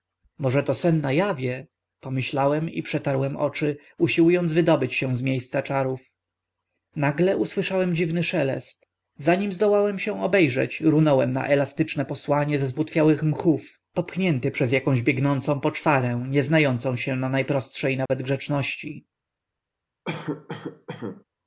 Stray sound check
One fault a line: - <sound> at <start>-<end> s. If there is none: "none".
- dropout at 18.1-18.1 s
- cough at 20.1-21.2 s